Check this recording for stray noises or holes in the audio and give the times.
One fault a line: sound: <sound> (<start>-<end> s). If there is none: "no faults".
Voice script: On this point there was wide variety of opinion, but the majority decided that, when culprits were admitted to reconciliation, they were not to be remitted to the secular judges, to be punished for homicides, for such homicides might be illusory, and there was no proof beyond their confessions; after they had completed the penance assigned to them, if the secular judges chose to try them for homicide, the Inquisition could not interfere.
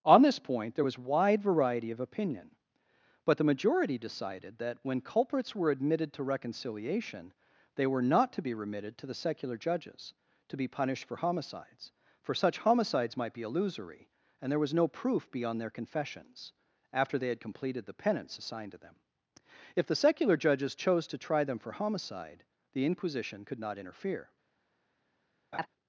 sound: laugh (25.5-25.7 s)